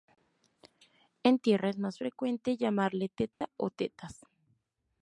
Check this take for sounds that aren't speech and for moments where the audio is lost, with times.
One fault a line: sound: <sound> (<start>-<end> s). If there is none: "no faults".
sound: dropout (3.3-3.4 s)